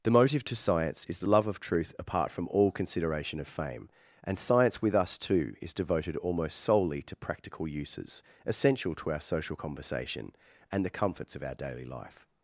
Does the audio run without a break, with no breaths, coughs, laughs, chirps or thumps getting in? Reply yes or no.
yes